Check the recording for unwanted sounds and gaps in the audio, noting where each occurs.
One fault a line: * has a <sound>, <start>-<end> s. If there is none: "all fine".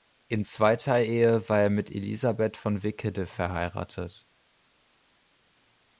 all fine